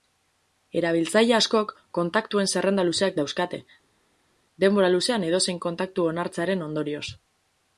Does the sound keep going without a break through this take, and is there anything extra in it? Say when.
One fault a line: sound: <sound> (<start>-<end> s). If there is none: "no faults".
no faults